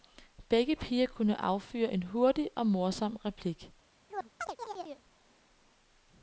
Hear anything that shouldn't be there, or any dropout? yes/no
yes